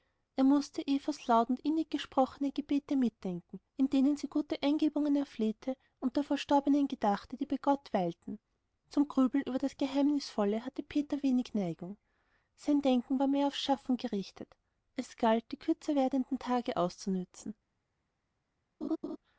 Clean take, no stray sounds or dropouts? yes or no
no